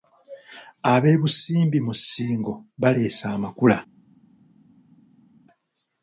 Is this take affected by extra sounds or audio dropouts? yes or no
no